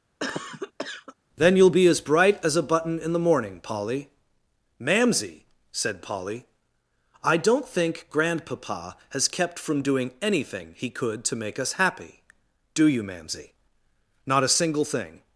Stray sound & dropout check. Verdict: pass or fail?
fail